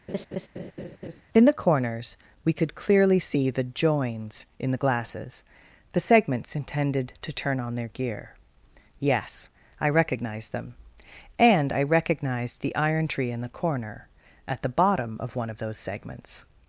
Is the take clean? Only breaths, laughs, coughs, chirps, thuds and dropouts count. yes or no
no